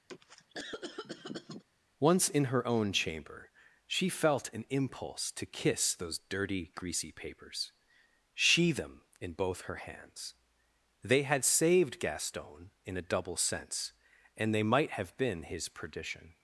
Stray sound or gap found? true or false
true